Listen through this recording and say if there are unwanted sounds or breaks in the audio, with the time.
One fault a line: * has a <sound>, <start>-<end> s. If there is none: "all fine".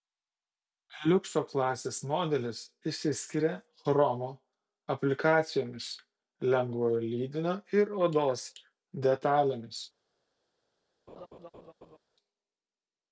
* has a laugh, 11.1-12.0 s